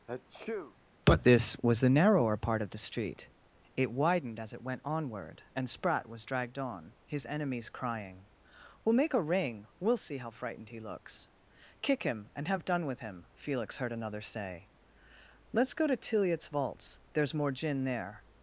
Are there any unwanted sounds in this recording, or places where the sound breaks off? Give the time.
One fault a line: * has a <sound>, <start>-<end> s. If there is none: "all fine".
* has a sneeze, 0.1-0.8 s